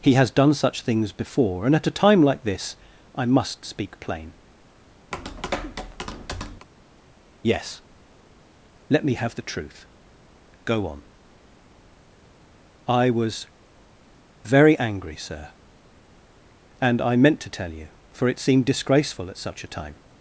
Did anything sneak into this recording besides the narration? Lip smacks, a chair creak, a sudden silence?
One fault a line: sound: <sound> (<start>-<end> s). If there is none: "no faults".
sound: tap (5.1-6.7 s)